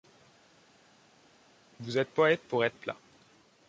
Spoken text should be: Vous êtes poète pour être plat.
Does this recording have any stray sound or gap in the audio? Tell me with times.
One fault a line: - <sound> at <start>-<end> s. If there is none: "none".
none